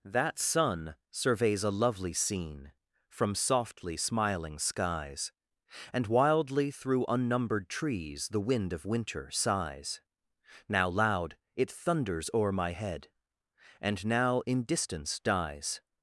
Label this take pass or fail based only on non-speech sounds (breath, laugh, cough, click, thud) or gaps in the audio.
pass